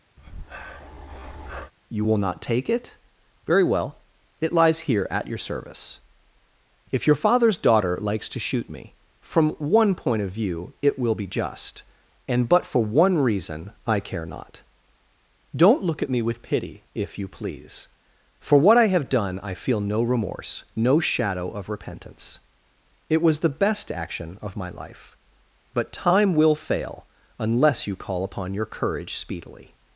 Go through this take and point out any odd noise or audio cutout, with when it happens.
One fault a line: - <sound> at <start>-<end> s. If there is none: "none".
- breath at 0.2-1.7 s